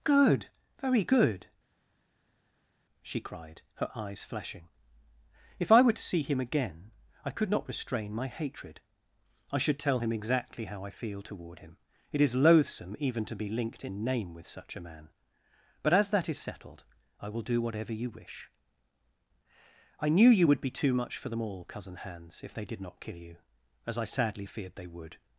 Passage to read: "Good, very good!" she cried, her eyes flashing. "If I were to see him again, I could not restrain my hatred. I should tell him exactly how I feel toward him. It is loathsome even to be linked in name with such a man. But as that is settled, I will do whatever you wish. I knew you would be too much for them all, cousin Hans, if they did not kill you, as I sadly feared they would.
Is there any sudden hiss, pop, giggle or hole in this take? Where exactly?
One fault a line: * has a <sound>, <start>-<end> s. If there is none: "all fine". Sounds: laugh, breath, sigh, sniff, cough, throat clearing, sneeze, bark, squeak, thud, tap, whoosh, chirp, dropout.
all fine